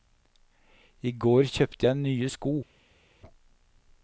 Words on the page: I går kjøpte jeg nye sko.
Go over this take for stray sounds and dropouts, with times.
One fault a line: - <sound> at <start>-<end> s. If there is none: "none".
none